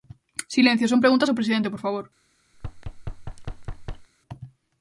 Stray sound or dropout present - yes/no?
yes